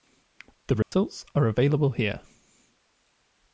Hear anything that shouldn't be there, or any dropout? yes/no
yes